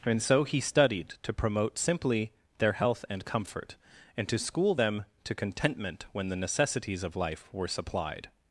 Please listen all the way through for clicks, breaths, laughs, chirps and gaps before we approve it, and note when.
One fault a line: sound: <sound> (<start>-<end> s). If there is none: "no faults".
no faults